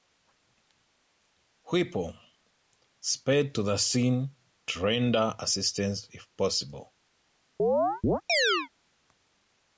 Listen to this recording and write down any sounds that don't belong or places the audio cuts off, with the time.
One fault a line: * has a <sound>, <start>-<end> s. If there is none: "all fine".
* has a chirp, 7.6-8.7 s